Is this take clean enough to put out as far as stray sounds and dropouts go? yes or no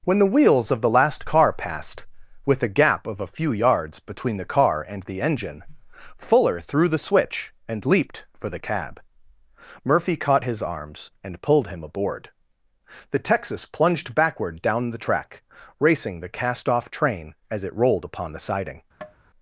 no